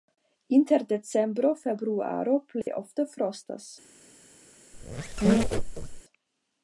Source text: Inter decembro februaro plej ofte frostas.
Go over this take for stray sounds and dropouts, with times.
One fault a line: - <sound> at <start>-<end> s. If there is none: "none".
- dropout at 2.6-2.7 s
- squeak at 4.7-6.0 s